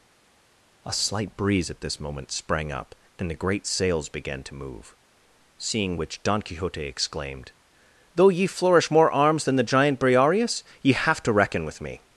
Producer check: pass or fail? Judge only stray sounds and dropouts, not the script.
pass